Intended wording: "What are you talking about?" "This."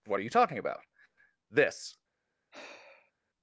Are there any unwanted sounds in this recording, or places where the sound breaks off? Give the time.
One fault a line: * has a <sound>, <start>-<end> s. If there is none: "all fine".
* has a sigh, 2.5-3.1 s